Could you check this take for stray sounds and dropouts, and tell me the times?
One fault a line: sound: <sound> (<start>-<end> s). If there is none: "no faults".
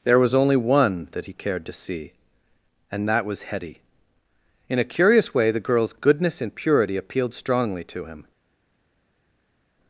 no faults